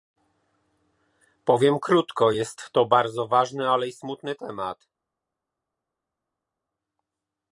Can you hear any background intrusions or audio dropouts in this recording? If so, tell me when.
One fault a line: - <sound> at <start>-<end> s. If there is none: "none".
none